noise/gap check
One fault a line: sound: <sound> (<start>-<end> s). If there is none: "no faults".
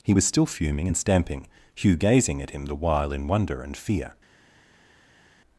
no faults